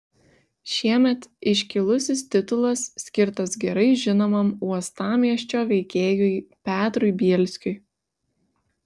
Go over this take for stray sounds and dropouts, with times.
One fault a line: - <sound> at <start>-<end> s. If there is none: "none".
none